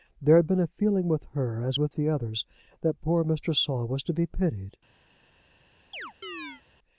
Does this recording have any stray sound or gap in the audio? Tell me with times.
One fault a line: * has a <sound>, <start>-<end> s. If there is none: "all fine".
* has a chirp, 5.9-6.6 s